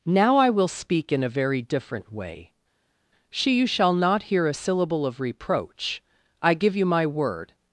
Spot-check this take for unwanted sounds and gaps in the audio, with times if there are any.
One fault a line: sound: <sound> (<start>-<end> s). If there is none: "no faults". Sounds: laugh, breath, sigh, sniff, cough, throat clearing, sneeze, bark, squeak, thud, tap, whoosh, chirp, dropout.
no faults